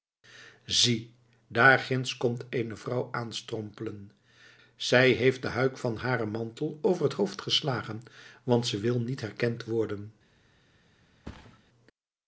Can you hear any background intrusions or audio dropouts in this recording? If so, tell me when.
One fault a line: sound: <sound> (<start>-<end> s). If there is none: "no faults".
sound: thud (11.2-11.6 s)